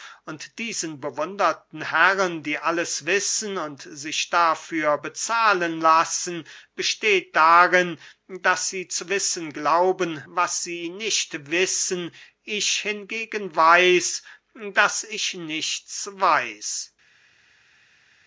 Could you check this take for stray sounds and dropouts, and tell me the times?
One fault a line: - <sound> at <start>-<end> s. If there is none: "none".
none